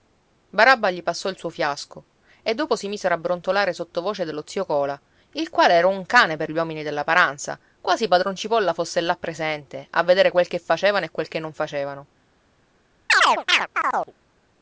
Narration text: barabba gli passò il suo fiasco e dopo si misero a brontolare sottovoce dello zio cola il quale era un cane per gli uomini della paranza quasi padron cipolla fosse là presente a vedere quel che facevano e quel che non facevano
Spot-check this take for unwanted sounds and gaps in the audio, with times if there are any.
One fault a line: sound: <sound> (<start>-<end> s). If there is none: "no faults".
sound: chirp (13.1-14.1 s)